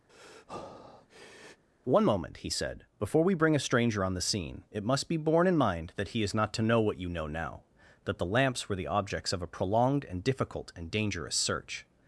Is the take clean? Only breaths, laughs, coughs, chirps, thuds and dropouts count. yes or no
no